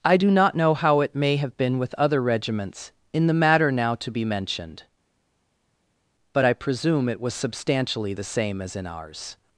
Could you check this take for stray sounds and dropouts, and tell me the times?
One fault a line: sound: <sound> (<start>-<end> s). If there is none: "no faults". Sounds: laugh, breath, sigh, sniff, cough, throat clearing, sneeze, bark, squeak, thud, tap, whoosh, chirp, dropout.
no faults